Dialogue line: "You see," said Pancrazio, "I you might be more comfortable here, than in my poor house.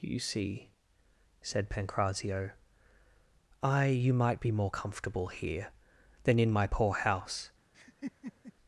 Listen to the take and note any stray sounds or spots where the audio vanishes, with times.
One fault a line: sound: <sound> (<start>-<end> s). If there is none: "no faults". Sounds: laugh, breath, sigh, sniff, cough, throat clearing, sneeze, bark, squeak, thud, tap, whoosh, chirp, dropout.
sound: laugh (7.7-8.5 s)